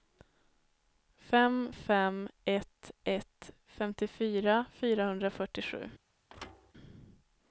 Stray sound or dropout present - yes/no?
yes